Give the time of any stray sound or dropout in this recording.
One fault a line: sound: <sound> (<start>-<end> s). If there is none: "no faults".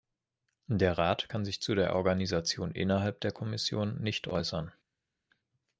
no faults